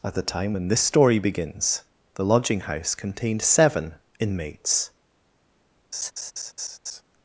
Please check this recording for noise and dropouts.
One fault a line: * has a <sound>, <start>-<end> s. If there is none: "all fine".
* has a laugh, 5.9-7.0 s